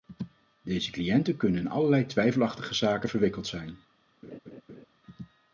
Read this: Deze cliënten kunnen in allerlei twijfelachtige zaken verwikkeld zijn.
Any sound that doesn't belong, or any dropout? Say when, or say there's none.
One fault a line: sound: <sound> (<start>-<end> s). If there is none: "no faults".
sound: laugh (4.2-4.9 s)